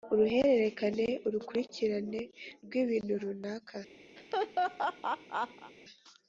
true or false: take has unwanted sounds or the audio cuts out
true